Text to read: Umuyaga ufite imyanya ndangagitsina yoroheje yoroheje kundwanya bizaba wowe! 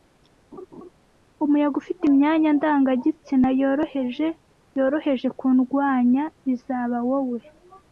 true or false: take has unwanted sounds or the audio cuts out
true